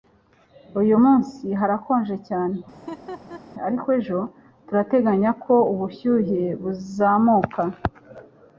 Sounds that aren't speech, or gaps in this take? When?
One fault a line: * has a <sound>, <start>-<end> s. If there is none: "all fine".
* has a laugh, 2.7-3.4 s